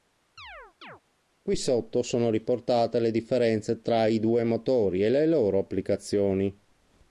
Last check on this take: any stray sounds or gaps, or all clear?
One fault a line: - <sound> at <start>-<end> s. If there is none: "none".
- chirp at 0.4-1.0 s